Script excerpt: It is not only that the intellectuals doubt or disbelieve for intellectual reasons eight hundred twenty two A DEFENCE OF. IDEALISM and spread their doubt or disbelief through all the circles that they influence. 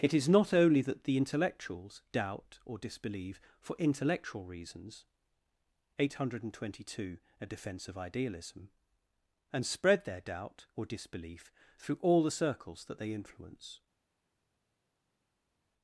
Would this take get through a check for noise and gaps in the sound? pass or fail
pass